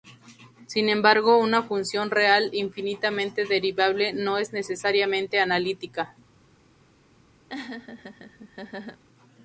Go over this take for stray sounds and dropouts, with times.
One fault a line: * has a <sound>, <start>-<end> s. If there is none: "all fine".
* has a laugh, 7.5-9.0 s